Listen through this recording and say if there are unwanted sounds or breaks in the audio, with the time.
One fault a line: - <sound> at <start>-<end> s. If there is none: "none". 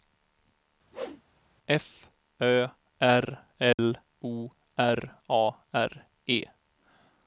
- whoosh at 0.9-1.2 s
- dropout at 3.7-3.8 s